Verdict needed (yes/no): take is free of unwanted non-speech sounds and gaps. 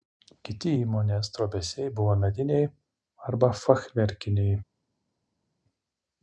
yes